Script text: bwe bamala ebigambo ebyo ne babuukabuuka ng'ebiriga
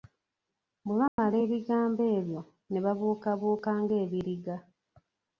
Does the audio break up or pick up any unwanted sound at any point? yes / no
yes